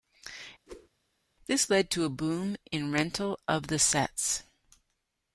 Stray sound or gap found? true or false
true